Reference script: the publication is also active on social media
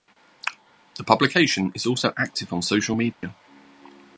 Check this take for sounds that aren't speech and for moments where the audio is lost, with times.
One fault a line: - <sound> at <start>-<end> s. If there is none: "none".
- dropout at 3.1-3.2 s